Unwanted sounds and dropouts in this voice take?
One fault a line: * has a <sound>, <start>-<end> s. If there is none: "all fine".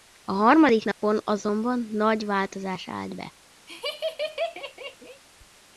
* has a dropout, 0.9-1.0 s
* has a laugh, 3.7-5.2 s